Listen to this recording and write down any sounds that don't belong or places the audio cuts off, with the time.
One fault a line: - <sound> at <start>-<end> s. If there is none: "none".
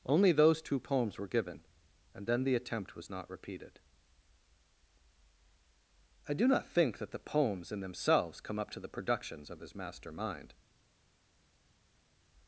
none